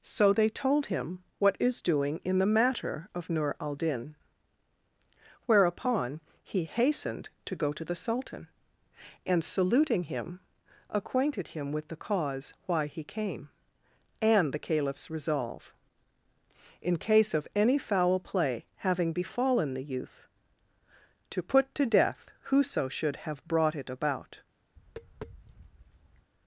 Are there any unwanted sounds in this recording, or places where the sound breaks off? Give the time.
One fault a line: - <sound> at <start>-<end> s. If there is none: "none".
- tap at 24.8-26.3 s